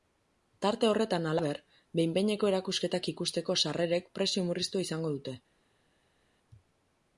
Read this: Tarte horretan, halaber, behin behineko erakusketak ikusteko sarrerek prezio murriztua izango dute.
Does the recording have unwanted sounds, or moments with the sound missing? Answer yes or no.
no